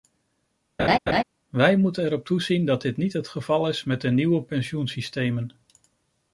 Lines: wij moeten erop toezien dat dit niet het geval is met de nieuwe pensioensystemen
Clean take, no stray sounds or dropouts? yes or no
no